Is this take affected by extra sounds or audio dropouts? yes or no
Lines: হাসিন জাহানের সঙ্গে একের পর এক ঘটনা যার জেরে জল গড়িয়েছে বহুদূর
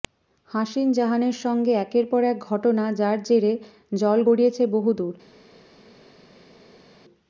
no